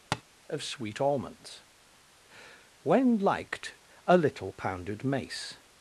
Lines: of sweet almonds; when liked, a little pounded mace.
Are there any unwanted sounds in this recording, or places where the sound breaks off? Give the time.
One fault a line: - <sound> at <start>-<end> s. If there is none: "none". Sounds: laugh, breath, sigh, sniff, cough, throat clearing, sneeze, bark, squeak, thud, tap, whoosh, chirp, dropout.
- tap at 0.1-0.2 s